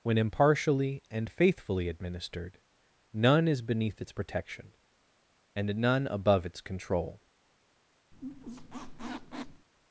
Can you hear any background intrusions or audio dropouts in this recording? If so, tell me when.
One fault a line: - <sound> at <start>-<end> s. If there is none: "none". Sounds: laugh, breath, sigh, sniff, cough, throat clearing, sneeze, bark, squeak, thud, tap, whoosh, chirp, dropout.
- squeak at 8.1-9.7 s